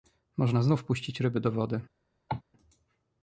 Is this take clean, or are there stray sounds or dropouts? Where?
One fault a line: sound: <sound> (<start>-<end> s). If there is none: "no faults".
sound: cough (2.3-2.4 s)